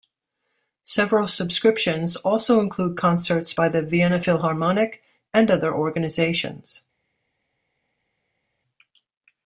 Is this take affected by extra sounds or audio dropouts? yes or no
no